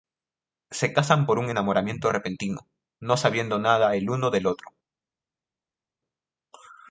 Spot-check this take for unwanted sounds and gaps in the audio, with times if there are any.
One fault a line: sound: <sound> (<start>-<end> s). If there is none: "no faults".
no faults